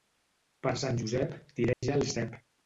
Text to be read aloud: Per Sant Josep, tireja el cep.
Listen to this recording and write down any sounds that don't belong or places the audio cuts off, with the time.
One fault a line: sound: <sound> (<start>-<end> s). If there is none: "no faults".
sound: dropout (1.7-1.8 s)